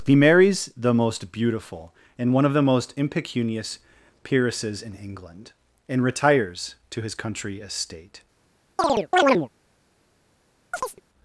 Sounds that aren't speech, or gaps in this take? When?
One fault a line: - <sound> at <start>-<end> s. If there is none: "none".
- chirp at 8.8-9.5 s
- chirp at 10.7-11.0 s